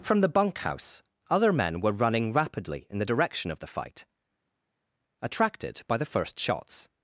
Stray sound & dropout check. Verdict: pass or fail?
pass